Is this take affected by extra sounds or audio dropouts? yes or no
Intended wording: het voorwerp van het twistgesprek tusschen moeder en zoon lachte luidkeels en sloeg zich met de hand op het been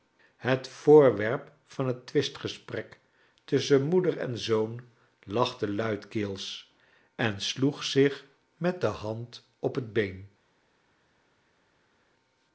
no